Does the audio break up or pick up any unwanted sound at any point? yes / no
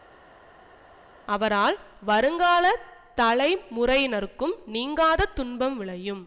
no